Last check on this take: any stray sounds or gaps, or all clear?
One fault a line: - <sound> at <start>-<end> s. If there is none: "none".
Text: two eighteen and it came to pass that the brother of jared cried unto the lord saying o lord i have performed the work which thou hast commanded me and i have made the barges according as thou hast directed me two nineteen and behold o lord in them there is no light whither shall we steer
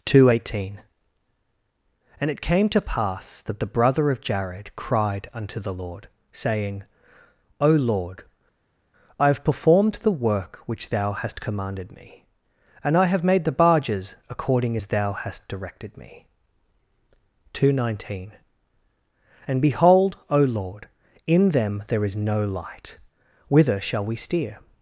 none